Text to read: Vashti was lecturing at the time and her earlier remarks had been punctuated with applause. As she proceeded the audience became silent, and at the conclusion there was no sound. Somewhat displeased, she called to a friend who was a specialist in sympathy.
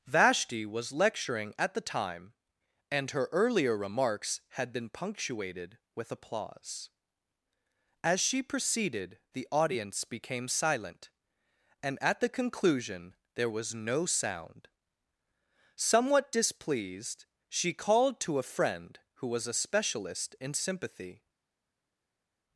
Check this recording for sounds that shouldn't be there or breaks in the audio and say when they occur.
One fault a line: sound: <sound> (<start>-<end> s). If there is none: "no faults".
no faults